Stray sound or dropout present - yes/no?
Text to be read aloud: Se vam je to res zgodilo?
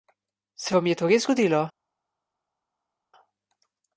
no